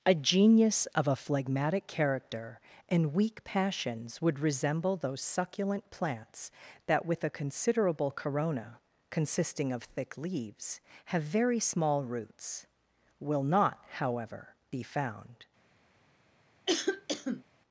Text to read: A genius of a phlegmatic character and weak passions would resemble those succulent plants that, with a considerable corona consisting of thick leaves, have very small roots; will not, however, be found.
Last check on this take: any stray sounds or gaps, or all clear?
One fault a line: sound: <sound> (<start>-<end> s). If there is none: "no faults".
sound: cough (16.7-17.4 s)